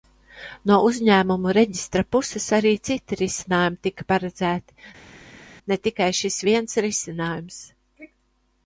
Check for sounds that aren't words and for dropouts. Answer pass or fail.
pass